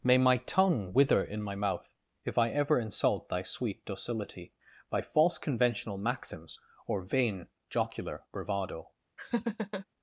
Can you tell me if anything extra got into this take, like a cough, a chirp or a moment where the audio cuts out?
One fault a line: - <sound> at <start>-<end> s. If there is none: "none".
- laugh at 9.2-9.9 s